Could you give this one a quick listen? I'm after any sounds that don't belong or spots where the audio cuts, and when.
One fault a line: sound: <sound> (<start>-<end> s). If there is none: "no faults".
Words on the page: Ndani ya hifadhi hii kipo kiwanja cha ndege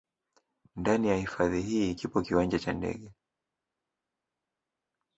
no faults